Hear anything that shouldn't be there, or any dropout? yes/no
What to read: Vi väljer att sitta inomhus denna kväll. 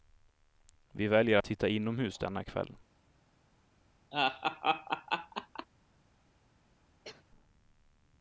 yes